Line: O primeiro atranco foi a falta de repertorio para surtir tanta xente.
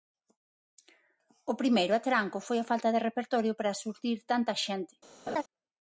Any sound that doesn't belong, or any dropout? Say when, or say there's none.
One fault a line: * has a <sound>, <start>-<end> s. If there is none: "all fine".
* has a laugh, 5.3-5.4 s